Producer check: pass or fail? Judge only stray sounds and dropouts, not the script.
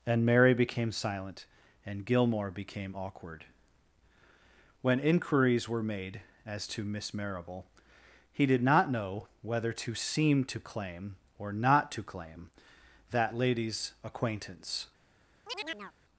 fail